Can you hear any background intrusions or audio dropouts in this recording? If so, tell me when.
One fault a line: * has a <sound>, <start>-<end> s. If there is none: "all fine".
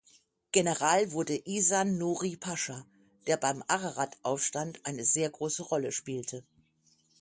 all fine